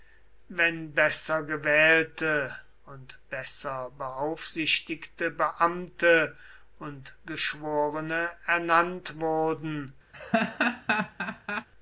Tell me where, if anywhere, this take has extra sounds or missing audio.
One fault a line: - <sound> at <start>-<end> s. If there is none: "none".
- laugh at 10.1-11.7 s